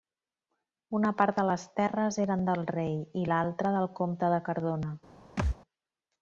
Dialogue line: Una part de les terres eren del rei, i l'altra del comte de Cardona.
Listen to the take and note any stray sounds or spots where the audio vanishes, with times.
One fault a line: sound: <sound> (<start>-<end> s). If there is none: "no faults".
sound: thud (5.4-5.6 s)